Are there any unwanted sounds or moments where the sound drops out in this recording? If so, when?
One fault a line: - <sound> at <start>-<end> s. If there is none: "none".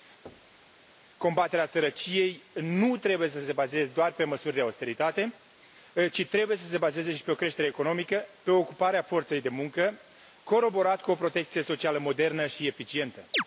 - thud at 0.3-0.7 s
- chirp at 13.3-13.4 s